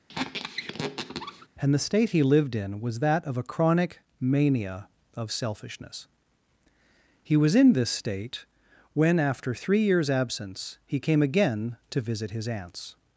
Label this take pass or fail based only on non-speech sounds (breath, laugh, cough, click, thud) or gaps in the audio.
fail